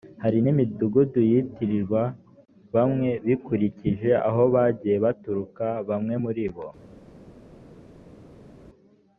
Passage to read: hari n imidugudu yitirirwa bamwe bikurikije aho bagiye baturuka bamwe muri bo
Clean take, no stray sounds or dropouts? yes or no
yes